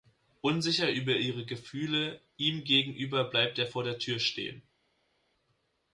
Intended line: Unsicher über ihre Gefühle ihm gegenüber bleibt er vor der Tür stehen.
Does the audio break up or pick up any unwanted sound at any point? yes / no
no